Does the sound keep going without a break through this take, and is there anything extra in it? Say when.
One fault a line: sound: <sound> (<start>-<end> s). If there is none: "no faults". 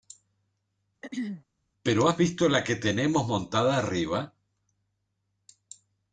sound: throat clearing (1.0-1.4 s)